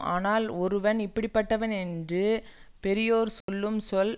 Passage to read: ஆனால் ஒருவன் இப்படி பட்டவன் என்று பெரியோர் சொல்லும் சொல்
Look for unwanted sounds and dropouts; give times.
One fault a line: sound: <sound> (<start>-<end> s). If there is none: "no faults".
sound: dropout (3.4-3.5 s)